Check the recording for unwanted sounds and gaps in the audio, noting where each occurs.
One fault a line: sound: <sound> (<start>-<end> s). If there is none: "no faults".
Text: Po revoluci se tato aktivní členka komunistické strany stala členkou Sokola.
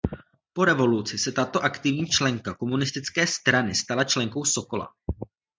no faults